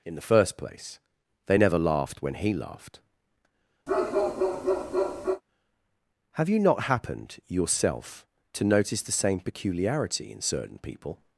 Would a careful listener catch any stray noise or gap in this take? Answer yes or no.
yes